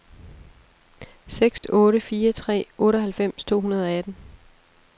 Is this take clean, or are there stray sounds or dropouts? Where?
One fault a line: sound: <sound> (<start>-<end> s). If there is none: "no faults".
sound: dropout (1.6-1.6 s)